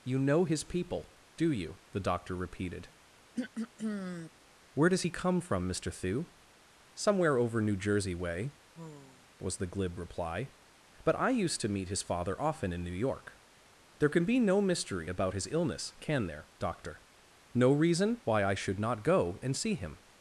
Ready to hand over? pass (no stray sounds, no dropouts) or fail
fail